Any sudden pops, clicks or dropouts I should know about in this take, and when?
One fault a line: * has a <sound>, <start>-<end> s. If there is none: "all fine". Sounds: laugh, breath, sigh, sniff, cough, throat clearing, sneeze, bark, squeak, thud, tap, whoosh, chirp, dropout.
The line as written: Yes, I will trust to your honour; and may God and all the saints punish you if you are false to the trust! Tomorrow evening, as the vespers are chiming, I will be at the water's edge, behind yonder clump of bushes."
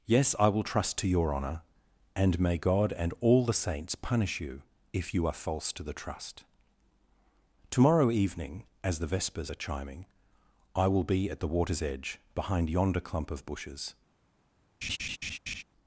* has a laugh, 14.8-15.6 s